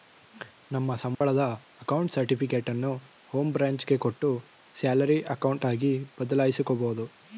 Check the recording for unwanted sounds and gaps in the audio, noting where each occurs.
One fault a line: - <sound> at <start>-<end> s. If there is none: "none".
- dropout at 1.1-1.2 s